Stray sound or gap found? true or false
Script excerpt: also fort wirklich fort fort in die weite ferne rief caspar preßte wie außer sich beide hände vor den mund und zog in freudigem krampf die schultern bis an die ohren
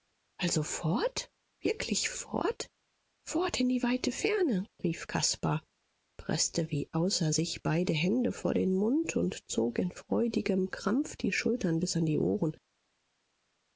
false